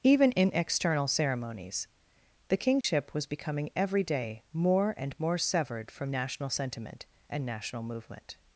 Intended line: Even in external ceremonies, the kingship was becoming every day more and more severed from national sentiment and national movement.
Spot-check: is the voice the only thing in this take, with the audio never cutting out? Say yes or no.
no